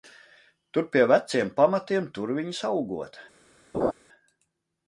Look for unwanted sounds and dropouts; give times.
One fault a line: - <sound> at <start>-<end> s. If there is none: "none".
- laugh at 3.7-3.9 s